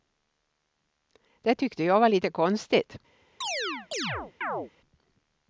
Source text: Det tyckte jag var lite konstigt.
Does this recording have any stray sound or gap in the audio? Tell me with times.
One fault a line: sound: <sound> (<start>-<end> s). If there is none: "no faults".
sound: chirp (3.4-4.7 s)